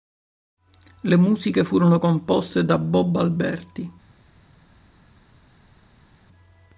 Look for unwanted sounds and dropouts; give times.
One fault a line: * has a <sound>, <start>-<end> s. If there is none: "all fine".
all fine